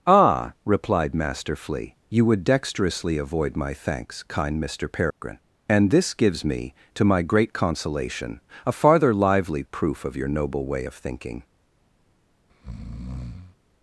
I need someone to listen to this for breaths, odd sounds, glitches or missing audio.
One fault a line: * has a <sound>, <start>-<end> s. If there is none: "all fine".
* has a dropout, 5.1-5.2 s
* has a breath, 12.5-13.6 s